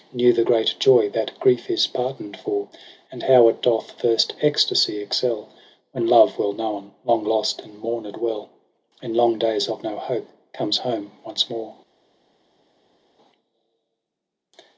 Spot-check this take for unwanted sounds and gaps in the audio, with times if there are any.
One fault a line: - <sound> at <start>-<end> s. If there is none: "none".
none